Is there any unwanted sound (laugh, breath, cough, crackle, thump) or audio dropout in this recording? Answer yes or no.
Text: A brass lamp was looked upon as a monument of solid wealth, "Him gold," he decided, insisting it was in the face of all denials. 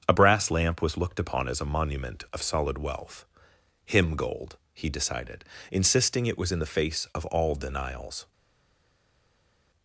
no